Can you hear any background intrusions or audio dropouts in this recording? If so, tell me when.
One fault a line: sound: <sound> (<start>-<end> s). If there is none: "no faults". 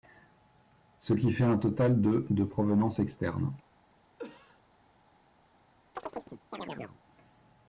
sound: cough (4.2-4.6 s)
sound: chirp (6.0-7.0 s)